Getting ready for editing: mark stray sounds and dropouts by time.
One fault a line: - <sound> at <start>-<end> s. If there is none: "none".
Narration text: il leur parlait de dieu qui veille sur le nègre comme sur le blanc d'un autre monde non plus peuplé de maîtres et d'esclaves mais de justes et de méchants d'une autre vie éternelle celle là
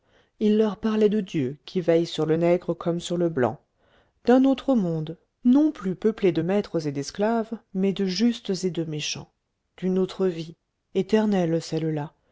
none